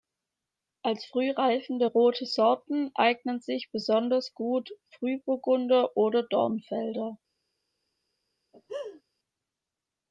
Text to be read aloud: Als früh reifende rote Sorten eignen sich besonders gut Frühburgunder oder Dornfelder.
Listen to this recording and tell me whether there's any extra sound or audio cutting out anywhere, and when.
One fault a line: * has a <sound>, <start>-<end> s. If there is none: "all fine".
* has a laugh, 8.5-9.0 s